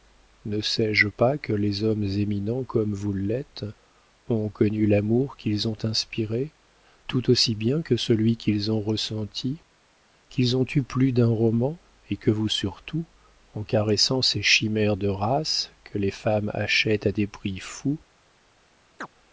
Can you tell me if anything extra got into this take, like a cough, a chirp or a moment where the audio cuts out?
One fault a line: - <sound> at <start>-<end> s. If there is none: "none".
- chirp at 19.0-19.1 s